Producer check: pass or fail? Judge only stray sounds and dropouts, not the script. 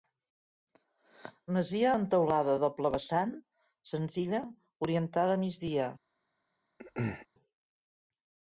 fail